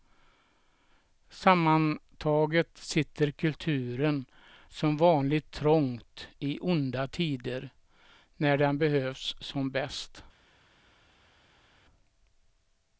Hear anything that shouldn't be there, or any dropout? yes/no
no